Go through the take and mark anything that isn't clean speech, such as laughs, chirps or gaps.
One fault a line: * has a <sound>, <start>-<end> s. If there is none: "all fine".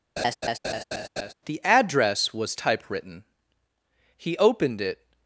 * has a laugh, 0.2-1.3 s